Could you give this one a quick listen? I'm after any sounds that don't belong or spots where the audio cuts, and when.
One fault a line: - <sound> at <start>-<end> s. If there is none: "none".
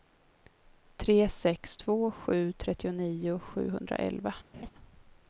- laugh at 4.5-4.7 s